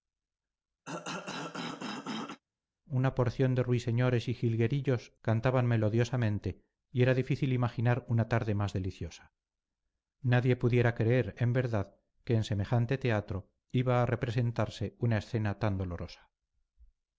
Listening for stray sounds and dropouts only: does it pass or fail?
fail